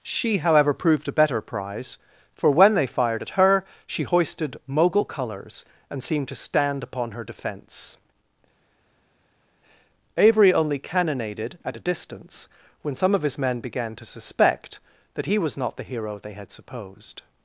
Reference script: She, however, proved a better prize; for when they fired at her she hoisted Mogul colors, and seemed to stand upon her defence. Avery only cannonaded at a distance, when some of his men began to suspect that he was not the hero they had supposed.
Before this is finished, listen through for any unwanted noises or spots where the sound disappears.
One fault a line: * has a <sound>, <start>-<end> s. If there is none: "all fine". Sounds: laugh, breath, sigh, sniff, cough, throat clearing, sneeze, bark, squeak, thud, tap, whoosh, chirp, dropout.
all fine